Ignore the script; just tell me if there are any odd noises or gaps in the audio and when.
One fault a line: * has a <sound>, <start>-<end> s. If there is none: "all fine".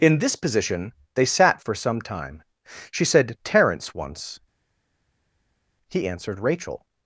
all fine